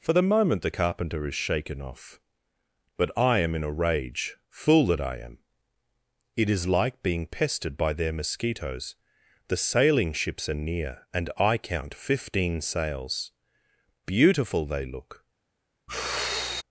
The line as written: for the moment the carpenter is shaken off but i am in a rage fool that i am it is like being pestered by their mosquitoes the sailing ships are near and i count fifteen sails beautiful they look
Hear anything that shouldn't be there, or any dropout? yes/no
yes